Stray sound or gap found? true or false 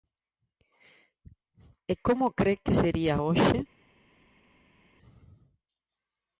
false